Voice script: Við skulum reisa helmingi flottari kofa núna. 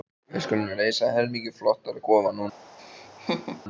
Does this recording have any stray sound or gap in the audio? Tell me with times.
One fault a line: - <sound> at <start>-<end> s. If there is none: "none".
- laugh at 2.8-3.6 s